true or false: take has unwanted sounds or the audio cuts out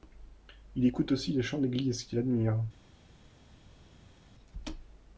false